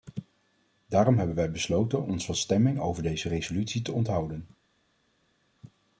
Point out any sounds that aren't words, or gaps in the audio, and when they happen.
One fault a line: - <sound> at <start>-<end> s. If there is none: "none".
none